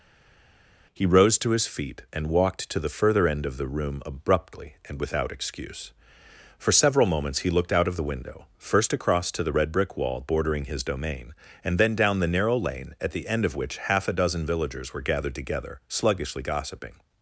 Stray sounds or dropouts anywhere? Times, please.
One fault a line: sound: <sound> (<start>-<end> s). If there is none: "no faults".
no faults